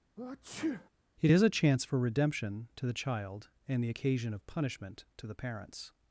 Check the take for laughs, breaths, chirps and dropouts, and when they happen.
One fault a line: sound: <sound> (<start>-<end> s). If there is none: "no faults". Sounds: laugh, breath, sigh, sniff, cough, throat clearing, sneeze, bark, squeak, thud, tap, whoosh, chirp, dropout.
sound: sneeze (0.2-0.9 s)